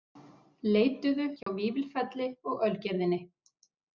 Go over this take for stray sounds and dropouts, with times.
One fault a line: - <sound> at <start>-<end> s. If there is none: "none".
- dropout at 1.4-1.5 s